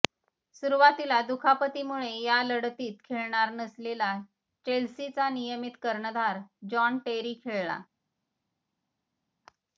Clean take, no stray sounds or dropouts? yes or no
yes